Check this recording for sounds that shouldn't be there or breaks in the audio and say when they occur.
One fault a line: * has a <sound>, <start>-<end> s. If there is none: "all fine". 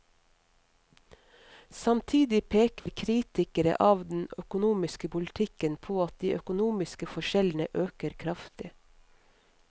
* has a dropout, 2.8-2.9 s